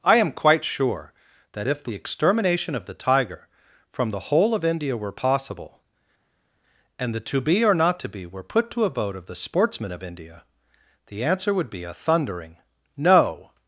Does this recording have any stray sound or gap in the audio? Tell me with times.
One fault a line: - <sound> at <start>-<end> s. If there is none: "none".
none